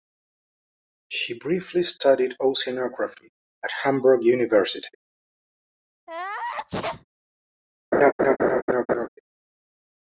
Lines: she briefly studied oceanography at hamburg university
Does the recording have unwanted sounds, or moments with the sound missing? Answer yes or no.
yes